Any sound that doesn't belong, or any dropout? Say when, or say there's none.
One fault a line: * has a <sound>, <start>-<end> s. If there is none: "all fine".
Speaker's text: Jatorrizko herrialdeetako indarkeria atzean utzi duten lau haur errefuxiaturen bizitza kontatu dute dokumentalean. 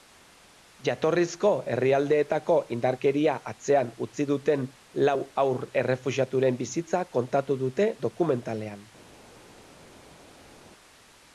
all fine